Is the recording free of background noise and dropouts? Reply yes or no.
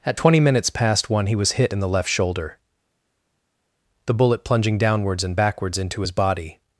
yes